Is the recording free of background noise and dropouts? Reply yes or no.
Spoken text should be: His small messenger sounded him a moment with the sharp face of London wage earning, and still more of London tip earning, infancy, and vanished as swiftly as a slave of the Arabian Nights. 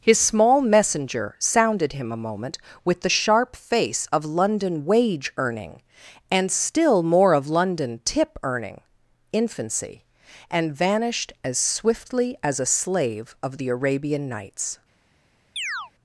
no